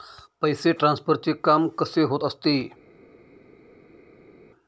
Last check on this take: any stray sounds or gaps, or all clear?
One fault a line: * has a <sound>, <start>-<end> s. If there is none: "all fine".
all fine